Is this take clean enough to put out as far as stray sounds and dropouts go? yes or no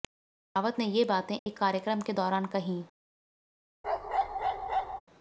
no